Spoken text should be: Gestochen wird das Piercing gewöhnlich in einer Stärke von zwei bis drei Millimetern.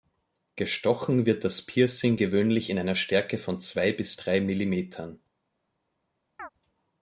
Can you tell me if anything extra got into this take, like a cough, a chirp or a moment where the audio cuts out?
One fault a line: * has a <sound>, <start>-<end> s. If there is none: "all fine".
* has a chirp, 6.4-6.5 s